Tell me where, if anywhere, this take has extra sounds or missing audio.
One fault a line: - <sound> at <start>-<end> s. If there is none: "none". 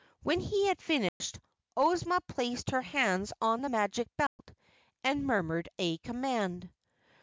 - dropout at 1.1-1.2 s
- dropout at 4.3-4.4 s